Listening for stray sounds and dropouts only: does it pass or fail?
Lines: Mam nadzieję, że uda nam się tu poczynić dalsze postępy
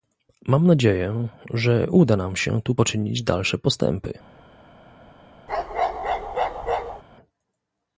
fail